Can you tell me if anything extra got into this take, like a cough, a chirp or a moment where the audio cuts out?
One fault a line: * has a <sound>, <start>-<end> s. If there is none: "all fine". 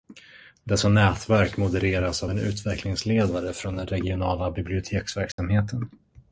* has a dropout, 5.3-5.4 s